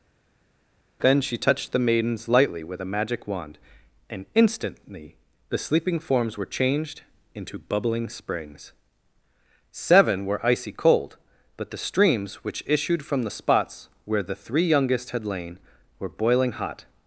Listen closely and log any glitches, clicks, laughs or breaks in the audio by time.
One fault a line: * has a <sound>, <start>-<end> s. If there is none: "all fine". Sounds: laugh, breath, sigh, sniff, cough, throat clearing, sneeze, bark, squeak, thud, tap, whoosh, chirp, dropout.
all fine